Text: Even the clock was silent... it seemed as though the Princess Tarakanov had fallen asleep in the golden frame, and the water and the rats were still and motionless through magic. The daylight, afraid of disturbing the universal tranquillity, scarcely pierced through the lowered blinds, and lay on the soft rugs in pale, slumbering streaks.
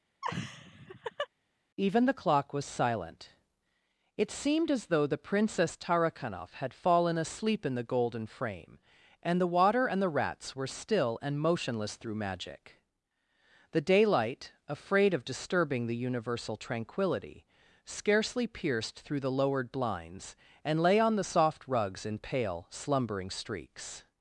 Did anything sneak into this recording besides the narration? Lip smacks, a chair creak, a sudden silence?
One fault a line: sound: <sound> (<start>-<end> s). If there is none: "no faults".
sound: laugh (0.2-1.3 s)